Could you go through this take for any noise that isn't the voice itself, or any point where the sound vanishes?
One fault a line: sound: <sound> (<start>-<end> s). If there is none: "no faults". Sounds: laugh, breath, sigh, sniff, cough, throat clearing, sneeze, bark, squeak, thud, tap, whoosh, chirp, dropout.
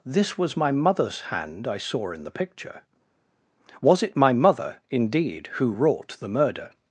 no faults